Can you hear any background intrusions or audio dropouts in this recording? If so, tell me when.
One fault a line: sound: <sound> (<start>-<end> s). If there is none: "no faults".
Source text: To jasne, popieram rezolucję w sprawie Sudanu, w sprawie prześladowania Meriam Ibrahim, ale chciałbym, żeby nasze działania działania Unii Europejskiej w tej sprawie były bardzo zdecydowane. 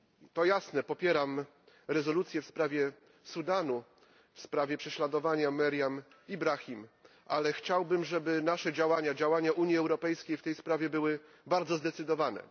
no faults